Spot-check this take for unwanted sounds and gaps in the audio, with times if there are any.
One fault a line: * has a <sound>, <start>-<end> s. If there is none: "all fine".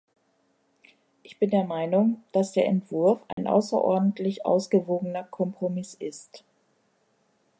* has a dropout, 3.3-3.4 s